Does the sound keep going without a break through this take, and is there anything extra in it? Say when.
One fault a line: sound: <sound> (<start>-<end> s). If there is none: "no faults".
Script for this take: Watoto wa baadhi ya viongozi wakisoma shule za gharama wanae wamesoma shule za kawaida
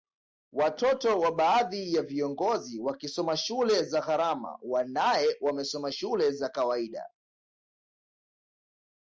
no faults